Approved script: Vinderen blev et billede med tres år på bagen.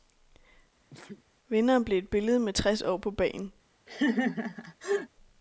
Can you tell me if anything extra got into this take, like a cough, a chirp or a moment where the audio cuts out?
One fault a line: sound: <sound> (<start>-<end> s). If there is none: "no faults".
sound: sneeze (0.9-1.2 s)
sound: laugh (3.9-5.1 s)